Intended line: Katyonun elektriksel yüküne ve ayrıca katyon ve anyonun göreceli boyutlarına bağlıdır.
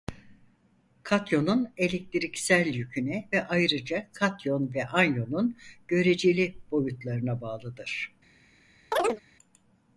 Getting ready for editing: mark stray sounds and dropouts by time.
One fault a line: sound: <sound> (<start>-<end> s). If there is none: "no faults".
sound: chirp (8.9-9.2 s)